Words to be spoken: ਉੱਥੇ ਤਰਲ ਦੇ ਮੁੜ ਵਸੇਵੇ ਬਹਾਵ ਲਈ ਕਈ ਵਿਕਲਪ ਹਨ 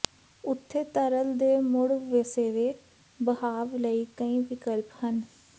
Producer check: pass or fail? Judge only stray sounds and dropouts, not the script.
pass